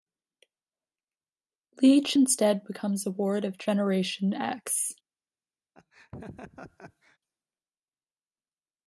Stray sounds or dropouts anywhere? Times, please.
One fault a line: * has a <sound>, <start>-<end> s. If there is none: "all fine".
* has a laugh, 5.7-7.2 s